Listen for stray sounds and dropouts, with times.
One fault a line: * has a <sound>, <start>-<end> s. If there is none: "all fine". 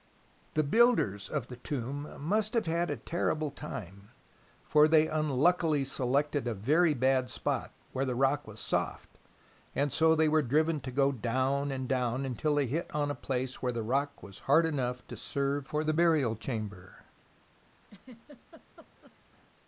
* has a laugh, 17.8-19.2 s